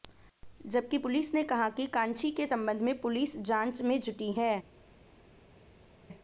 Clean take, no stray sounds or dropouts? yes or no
yes